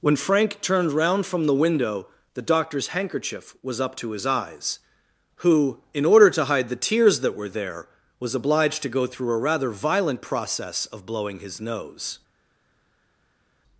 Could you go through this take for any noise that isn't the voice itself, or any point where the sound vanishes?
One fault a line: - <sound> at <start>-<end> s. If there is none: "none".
none